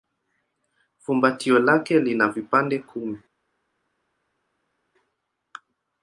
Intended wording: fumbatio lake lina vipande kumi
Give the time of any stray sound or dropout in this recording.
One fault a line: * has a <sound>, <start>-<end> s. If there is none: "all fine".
all fine